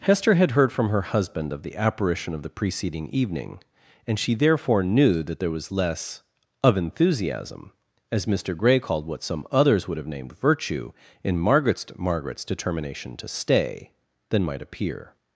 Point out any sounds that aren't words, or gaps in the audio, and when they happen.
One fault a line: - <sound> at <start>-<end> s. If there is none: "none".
none